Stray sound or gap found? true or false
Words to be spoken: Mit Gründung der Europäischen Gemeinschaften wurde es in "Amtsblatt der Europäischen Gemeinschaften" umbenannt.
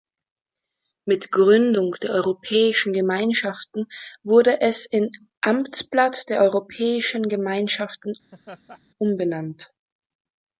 true